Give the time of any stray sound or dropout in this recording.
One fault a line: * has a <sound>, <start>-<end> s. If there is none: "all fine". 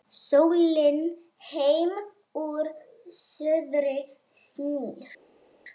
all fine